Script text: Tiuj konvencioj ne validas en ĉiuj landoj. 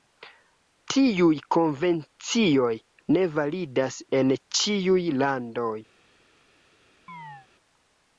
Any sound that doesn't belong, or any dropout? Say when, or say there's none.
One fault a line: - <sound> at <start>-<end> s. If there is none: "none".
- chirp at 7.1-7.5 s